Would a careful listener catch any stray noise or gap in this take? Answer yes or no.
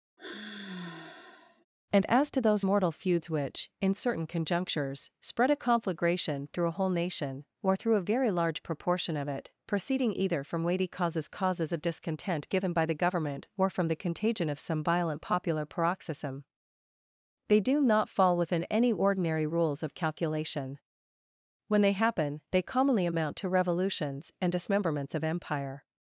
yes